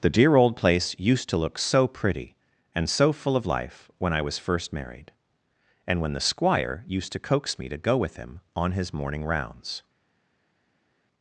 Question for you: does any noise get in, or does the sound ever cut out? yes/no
no